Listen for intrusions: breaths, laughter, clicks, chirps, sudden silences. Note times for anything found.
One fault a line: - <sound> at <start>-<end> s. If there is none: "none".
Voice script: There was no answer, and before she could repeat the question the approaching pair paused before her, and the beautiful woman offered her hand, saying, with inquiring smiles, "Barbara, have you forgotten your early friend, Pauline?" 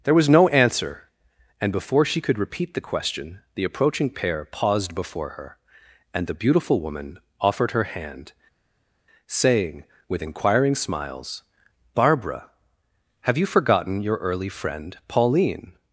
none